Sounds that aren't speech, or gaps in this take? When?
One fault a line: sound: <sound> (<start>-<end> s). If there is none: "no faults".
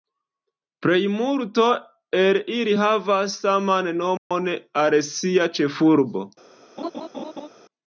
sound: dropout (4.2-4.3 s)
sound: laugh (6.8-7.5 s)